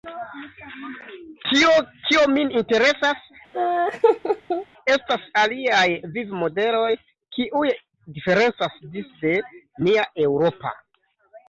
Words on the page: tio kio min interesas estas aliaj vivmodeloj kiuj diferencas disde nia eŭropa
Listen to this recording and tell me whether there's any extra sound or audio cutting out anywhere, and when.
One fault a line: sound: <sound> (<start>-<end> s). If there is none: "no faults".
sound: laugh (3.5-4.7 s)